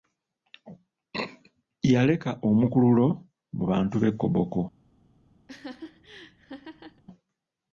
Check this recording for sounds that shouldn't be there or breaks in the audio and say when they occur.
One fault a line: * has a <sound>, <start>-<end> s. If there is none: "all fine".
* has a laugh, 5.5-7.0 s